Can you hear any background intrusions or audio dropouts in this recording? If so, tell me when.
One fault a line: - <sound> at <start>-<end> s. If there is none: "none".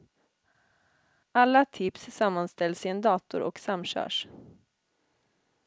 none